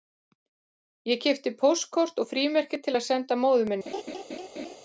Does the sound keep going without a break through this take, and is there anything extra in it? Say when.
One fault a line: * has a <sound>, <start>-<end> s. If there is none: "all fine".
* has a laugh, 3.9-4.8 s